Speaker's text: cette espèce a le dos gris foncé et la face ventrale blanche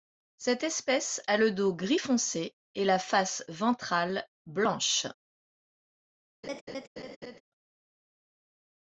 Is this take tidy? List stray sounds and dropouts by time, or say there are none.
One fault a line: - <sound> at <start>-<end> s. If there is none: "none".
- laugh at 6.4-7.4 s